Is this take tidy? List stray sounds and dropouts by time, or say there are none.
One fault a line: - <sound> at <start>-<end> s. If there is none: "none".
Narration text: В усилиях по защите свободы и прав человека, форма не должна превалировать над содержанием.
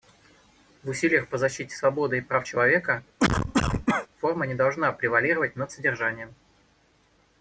- cough at 3.2-4.1 s